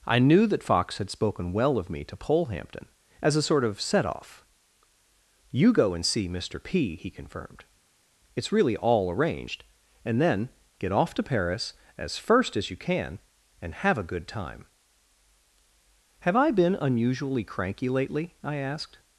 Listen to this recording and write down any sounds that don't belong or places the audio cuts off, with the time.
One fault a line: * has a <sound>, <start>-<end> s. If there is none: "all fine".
all fine